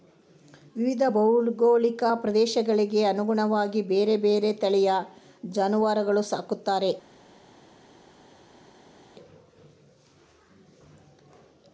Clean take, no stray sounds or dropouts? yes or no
yes